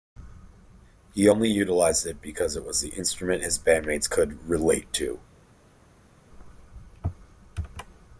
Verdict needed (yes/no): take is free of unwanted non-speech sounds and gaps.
yes